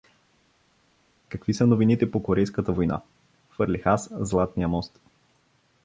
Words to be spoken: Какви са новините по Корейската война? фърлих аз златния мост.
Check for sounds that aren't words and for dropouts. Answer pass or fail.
pass